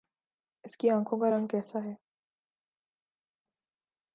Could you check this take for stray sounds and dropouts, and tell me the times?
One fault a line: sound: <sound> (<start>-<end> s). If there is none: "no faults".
no faults